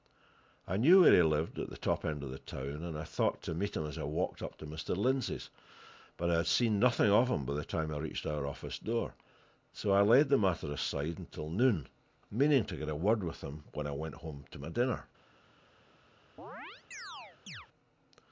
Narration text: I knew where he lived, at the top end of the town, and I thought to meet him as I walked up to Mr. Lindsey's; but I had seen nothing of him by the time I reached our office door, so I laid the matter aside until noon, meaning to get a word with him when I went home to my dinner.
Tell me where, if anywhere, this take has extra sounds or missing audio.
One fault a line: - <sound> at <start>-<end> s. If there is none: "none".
- chirp at 16.4-17.7 s